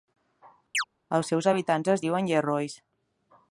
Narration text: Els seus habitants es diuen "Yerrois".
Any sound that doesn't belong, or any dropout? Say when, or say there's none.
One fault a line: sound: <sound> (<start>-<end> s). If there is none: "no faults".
sound: chirp (0.7-0.8 s)